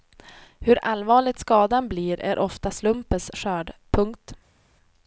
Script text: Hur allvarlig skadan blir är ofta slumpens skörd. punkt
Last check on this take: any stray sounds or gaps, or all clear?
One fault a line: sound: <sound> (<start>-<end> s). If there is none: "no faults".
no faults